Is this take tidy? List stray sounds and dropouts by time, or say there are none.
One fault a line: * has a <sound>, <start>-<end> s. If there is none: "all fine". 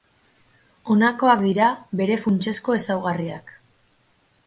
all fine